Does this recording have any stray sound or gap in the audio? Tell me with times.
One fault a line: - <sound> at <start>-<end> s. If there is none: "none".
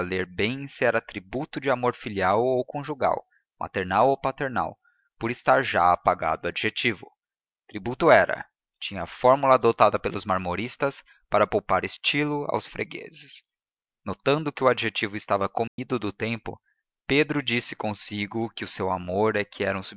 - dropout at 15.7-15.8 s